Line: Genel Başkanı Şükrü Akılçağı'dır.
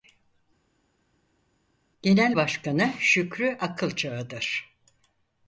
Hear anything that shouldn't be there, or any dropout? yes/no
no